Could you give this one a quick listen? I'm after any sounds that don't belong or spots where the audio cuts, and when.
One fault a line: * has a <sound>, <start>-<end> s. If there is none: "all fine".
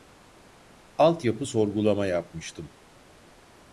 all fine